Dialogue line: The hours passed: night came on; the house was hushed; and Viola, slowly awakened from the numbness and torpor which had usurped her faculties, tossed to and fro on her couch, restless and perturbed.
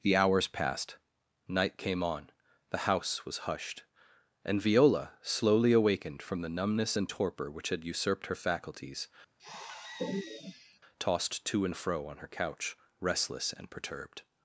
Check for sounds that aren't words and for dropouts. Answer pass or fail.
fail